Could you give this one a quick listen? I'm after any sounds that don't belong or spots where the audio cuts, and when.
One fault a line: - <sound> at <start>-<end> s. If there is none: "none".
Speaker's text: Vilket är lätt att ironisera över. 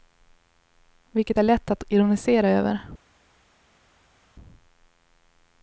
none